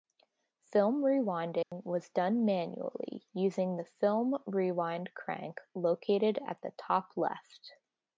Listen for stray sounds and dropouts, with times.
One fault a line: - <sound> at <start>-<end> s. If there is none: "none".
- dropout at 1.6-1.7 s